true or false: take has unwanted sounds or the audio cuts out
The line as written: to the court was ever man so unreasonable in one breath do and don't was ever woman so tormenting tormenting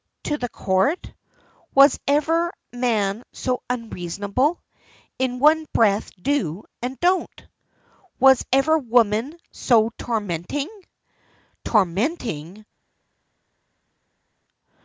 false